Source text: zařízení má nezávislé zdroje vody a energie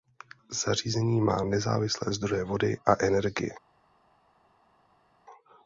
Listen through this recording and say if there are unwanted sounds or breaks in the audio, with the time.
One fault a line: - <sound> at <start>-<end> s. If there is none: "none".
none